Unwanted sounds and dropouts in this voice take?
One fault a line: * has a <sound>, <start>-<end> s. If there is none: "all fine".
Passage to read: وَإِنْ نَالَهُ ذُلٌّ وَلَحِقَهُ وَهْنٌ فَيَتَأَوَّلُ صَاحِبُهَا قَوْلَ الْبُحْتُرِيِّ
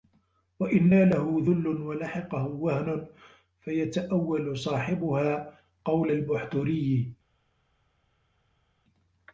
all fine